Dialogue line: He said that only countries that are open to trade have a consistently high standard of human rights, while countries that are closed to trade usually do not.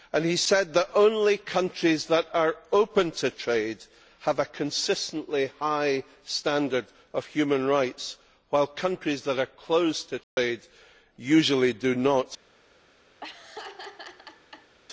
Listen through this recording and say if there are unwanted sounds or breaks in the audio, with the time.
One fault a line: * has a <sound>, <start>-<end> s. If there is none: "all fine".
* has a dropout, 10.2-10.4 s
* has a laugh, 13.2-14.7 s